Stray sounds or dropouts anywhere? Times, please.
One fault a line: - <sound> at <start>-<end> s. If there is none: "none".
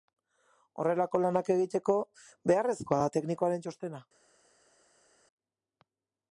none